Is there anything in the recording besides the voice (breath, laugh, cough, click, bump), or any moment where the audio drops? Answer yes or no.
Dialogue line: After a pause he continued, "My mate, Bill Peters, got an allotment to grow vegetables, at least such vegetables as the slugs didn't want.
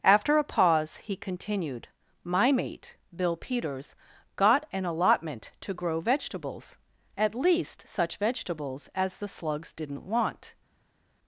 no